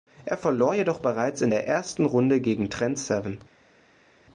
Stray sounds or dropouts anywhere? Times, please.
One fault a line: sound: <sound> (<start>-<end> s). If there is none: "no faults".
no faults